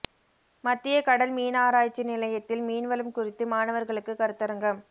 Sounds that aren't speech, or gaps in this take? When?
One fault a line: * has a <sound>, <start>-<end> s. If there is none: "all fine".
all fine